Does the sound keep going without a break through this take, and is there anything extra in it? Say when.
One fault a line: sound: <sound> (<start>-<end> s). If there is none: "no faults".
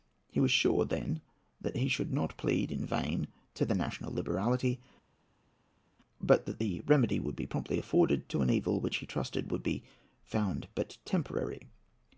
no faults